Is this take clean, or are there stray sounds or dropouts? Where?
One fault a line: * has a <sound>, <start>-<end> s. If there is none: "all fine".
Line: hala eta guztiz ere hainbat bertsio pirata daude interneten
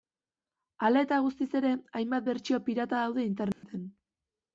* has a dropout, 3.5-3.6 s